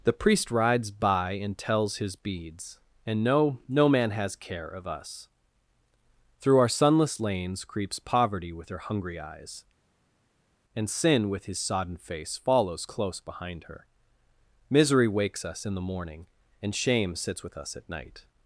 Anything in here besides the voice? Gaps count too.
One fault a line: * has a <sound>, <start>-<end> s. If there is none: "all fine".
all fine